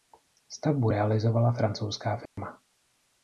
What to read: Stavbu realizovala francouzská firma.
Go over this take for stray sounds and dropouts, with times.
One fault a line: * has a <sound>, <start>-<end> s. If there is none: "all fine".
* has a dropout, 2.3-2.4 s